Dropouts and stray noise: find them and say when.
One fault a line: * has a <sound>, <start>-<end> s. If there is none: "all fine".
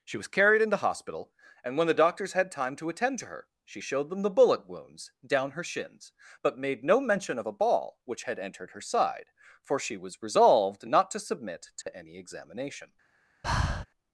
* has a dropout, 11.8-11.9 s
* has a breath, 13.4-13.9 s